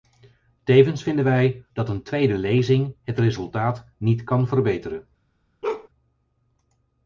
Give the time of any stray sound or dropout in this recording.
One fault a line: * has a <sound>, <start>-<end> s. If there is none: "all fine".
* has a bark, 5.6-5.9 s